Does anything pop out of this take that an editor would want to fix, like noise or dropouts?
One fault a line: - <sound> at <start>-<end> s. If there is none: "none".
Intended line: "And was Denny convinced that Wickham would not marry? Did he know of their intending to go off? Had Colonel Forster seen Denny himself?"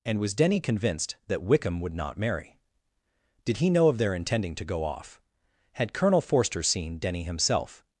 none